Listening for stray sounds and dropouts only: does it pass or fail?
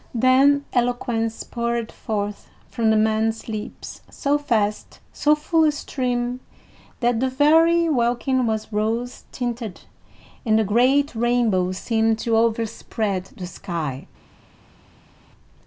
pass